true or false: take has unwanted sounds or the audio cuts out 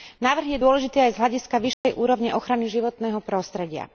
true